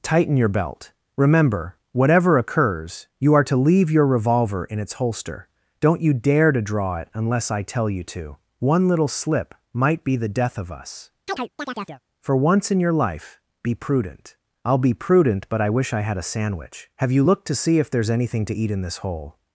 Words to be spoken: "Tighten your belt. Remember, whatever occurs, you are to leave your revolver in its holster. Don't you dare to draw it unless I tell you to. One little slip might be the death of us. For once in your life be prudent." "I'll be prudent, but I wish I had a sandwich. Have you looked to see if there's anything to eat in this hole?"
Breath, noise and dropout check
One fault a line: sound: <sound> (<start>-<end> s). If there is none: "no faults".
sound: chirp (11.3-12.0 s)